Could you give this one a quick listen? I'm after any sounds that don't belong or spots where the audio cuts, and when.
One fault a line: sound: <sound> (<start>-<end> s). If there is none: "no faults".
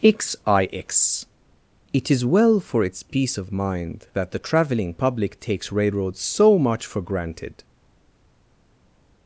no faults